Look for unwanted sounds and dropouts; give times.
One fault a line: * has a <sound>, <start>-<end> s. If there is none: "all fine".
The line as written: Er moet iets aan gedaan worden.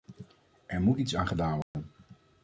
* has a dropout, 1.6-1.7 s